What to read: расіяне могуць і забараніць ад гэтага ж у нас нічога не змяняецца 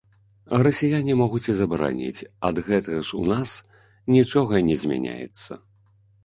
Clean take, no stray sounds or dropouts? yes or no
yes